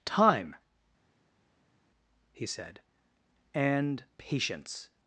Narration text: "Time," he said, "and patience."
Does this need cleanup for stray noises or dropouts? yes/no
no